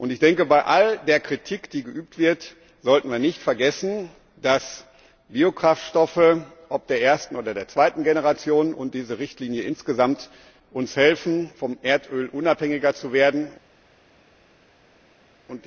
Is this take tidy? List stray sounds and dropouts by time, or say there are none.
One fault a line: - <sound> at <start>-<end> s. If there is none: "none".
none